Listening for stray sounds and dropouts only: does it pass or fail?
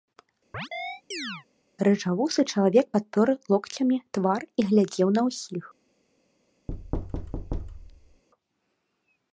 fail